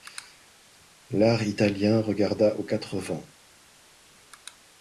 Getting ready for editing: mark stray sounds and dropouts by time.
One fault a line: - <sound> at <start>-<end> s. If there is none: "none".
none